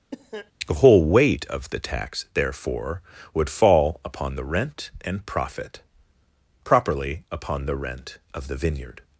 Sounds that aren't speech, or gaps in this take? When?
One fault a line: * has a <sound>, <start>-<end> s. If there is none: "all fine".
* has a cough, 0.1-0.5 s